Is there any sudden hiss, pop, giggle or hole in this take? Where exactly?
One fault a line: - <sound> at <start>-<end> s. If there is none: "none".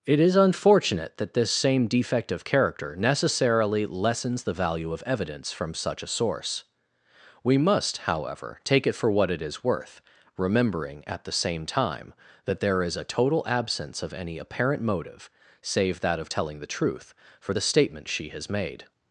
none